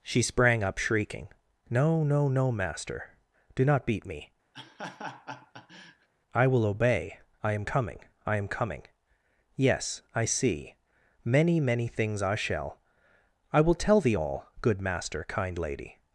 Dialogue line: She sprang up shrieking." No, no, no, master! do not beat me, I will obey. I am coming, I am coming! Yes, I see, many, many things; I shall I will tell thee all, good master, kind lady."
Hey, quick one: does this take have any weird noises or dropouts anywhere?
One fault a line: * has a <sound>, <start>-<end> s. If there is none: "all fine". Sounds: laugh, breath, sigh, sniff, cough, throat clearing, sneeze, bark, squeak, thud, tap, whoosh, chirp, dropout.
* has a laugh, 4.5-6.1 s